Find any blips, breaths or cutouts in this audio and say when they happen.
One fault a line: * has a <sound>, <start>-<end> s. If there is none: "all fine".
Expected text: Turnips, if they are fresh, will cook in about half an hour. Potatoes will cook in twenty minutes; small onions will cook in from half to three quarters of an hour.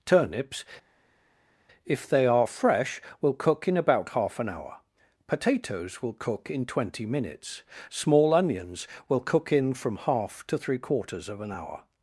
all fine